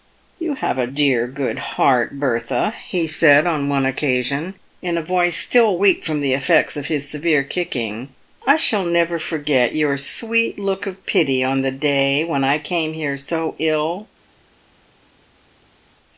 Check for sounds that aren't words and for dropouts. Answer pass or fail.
pass